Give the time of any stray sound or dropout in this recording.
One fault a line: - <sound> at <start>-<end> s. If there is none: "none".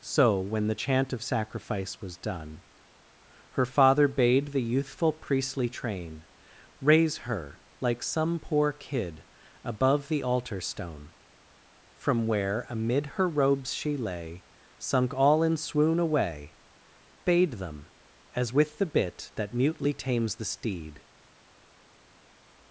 none